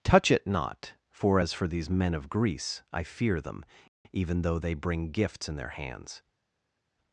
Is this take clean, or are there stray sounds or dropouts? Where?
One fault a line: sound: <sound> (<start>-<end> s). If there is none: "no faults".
no faults